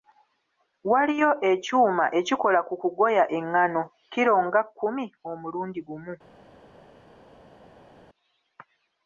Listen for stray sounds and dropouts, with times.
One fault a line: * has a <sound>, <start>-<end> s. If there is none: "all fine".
all fine